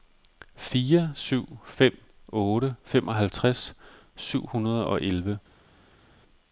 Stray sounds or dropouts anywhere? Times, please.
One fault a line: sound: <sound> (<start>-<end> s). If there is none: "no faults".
no faults